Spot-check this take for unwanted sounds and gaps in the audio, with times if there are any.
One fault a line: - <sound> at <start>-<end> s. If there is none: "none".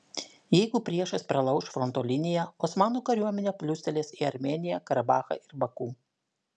none